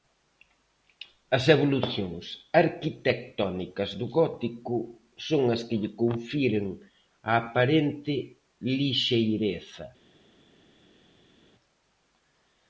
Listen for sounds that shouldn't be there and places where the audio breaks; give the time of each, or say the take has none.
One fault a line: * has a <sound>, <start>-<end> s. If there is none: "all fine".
all fine